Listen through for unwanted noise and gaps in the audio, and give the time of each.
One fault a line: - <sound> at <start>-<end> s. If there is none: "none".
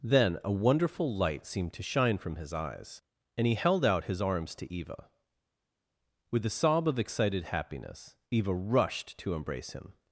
none